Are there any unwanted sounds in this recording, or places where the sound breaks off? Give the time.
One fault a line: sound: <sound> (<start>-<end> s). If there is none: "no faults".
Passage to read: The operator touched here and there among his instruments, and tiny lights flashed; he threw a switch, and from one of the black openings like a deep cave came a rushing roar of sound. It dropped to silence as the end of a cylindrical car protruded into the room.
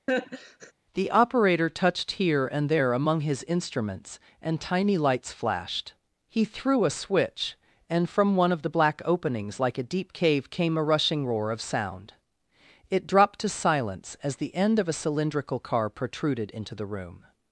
sound: laugh (0.1-0.7 s)